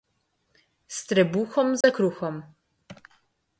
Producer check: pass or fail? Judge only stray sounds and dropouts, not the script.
fail